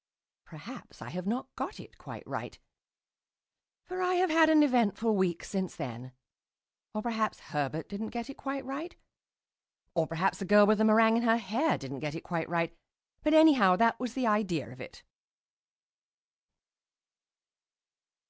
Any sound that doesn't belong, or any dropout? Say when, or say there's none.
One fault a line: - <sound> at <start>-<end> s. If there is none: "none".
none